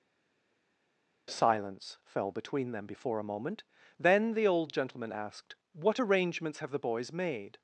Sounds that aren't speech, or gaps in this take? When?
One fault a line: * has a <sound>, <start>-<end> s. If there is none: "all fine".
all fine